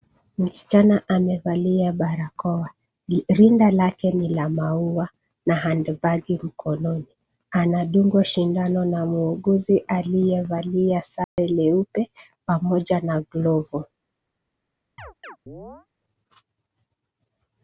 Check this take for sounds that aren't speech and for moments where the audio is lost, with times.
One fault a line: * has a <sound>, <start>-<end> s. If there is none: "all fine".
* has a dropout, 11.2-11.4 s
* has a chirp, 15.0-15.9 s